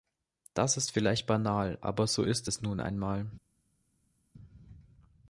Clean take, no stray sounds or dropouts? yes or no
yes